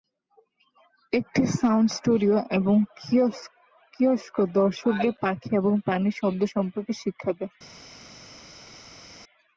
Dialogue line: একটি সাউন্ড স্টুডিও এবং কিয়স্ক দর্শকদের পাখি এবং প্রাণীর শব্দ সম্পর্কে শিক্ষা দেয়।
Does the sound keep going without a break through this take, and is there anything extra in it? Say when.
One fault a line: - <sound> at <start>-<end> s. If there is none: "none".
none